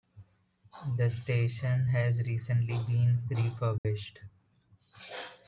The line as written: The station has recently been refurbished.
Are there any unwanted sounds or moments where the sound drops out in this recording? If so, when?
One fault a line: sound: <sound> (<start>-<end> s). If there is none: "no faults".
sound: dropout (3.8-3.8 s)